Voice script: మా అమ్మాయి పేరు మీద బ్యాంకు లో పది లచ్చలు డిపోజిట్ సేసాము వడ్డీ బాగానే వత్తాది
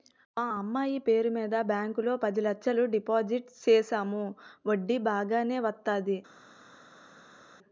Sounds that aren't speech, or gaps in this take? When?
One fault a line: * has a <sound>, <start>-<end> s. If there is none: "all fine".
all fine